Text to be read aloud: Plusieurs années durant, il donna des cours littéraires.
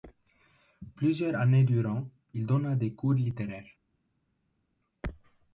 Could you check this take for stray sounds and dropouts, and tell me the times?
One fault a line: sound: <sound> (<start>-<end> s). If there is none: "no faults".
no faults